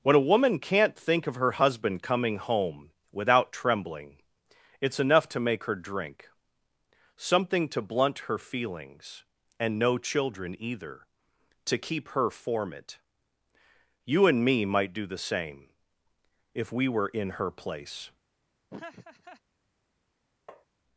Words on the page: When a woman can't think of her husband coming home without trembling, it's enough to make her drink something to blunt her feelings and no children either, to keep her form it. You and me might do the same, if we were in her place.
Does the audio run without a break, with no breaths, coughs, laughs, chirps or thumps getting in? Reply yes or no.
no